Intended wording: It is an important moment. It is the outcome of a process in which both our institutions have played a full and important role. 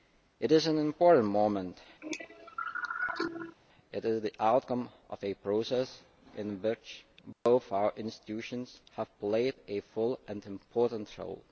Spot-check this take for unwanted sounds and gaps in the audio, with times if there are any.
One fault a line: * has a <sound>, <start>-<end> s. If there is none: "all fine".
* has a cough, 2.0-3.6 s
* has a dropout, 7.3-7.5 s